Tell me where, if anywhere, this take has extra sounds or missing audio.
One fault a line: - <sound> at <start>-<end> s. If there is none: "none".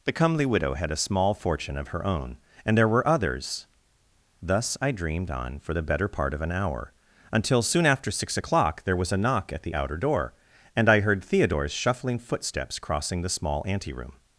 none